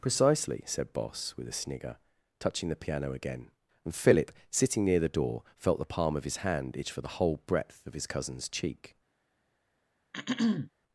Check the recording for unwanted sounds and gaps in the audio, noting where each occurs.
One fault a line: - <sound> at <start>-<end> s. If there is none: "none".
- throat clearing at 10.1-10.7 s